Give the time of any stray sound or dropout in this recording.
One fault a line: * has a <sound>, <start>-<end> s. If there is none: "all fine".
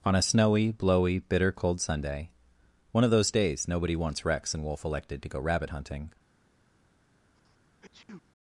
* has a sneeze, 7.3-8.3 s